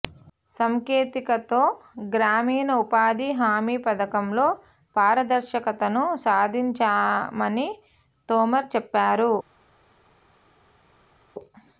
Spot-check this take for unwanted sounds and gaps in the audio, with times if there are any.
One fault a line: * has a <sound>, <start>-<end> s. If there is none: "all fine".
all fine